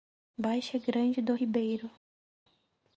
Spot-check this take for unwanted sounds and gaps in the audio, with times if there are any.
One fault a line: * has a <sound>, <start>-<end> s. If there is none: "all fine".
all fine